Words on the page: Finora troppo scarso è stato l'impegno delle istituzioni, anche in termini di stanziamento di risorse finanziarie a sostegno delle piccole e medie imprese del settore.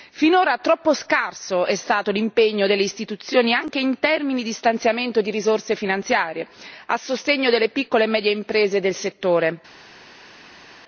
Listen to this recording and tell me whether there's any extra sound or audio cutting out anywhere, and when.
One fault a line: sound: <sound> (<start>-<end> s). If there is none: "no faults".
no faults